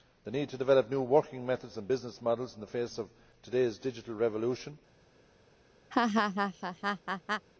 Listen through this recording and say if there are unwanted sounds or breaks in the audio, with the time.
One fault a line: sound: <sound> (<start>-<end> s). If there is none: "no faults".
sound: laugh (5.9-7.5 s)